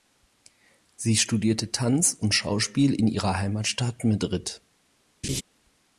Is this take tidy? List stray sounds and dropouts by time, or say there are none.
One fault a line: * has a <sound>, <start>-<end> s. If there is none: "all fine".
* has a laugh, 5.2-5.4 s